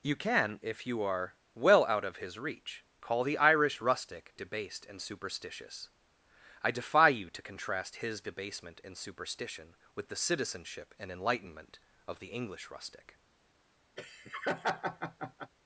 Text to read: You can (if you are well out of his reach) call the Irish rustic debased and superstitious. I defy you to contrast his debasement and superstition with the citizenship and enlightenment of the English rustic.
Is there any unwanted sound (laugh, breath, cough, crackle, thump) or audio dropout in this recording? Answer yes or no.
yes